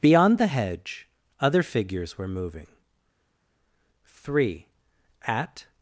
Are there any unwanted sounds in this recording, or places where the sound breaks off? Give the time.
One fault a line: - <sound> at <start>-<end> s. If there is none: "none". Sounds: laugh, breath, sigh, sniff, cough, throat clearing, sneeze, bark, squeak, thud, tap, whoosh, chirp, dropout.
none